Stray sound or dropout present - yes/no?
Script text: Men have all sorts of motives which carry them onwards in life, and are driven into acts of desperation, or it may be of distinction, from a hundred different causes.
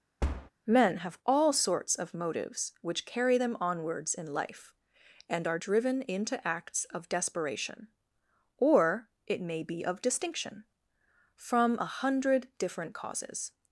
yes